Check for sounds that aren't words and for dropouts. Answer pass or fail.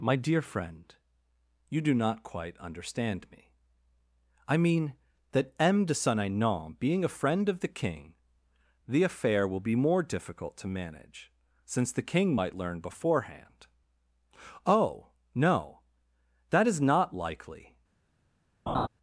fail